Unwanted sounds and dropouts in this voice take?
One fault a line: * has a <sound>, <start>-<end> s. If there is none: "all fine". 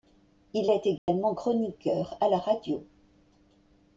* has a dropout, 1.0-1.1 s